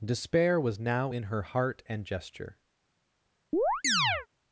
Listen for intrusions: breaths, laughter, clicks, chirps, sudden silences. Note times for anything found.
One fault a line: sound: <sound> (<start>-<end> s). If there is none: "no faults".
sound: chirp (3.5-4.3 s)